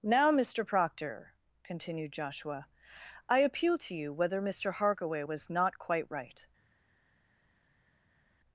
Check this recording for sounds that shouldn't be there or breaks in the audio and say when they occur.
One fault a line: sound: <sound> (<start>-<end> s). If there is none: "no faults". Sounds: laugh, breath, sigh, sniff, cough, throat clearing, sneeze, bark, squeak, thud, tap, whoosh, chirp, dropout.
no faults